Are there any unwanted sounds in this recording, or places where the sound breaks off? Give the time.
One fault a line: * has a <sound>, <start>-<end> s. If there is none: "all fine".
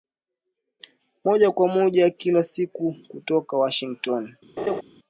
* has a laugh, 4.6-4.8 s